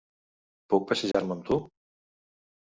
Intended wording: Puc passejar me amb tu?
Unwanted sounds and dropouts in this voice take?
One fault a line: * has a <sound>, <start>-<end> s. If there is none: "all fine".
* has a dropout, 1.1-1.1 s